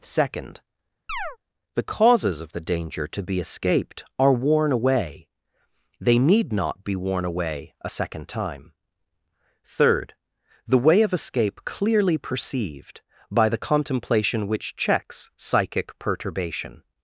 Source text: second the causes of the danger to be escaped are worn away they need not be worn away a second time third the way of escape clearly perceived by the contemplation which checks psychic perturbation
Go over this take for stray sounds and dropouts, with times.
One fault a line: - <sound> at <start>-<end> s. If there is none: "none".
- chirp at 1.1-1.4 s